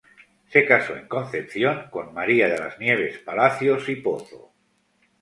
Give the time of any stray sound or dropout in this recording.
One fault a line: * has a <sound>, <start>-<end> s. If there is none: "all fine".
all fine